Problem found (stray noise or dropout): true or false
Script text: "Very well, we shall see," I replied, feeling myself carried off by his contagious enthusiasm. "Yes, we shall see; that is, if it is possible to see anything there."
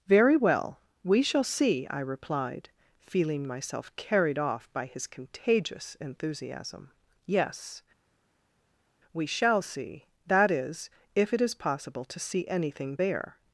false